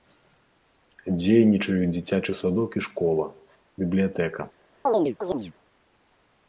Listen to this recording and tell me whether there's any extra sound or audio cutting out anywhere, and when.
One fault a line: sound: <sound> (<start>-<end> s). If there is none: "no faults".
sound: chirp (4.9-5.5 s)